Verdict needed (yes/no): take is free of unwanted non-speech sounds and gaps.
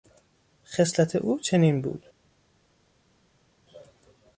yes